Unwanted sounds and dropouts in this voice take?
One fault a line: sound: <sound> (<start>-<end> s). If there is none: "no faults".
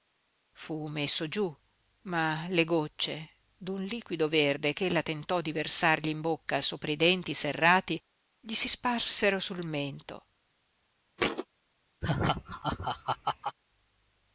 sound: thud (11.2-11.5 s)
sound: laugh (12.0-13.6 s)